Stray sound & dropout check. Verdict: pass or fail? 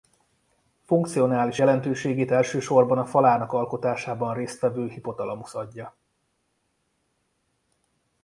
pass